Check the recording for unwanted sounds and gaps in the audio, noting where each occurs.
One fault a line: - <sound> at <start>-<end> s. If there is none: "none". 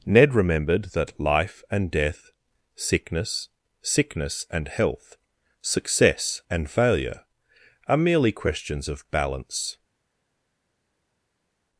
none